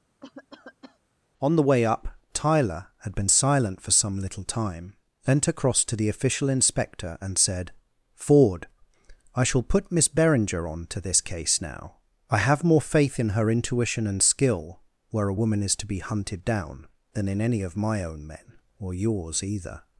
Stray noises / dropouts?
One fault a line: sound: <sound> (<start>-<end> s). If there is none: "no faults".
sound: cough (0.2-1.0 s)